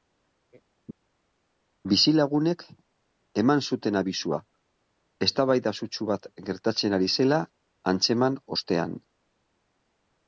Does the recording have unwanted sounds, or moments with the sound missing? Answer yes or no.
no